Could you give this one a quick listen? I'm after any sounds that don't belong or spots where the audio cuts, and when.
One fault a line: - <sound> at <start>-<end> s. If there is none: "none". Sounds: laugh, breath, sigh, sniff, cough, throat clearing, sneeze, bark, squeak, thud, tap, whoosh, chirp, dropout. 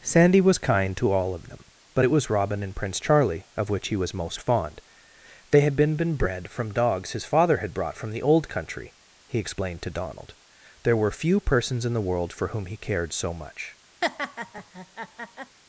- laugh at 14.0-15.6 s